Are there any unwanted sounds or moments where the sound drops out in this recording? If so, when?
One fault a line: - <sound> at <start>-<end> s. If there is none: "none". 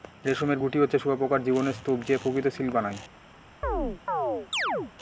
- chirp at 3.6-4.9 s